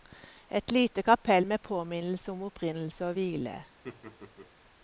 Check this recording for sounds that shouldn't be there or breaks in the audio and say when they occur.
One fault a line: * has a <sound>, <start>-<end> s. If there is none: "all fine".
* has a laugh, 3.8-4.5 s